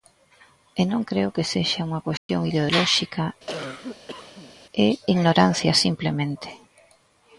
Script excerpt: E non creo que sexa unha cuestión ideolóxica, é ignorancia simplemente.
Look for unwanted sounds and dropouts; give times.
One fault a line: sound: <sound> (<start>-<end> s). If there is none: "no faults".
sound: dropout (2.2-2.3 s)
sound: cough (3.5-4.5 s)